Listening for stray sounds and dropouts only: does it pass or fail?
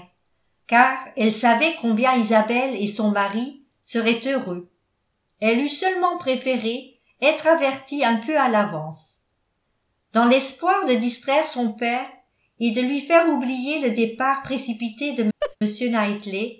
fail